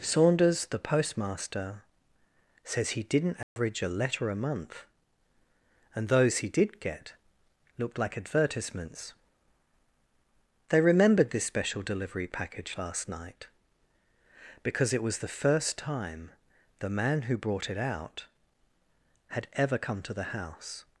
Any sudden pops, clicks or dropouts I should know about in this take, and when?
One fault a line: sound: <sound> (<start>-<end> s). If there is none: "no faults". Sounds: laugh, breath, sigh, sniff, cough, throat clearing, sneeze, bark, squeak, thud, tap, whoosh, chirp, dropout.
sound: dropout (3.4-3.6 s)